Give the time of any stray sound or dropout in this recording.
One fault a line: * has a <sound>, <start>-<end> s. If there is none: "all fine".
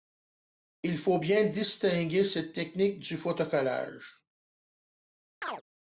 * has a chirp, 5.4-5.6 s